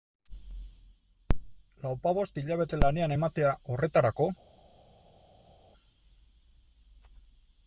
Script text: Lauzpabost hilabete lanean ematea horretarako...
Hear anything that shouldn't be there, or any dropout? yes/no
no